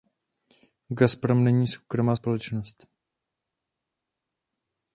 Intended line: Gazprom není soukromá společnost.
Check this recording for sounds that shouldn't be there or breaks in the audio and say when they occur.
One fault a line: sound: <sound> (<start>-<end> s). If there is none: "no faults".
no faults